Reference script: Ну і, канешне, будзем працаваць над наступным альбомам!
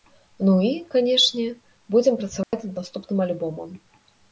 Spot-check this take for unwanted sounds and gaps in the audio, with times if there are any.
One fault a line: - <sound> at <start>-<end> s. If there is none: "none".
- dropout at 2.4-2.5 s